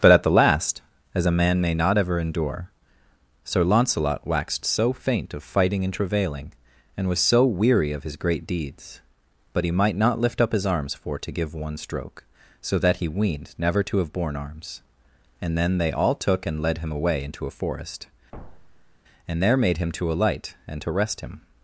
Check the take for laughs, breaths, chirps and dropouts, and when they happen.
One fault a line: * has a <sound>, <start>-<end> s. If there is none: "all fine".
* has a thud, 18.3-19.0 s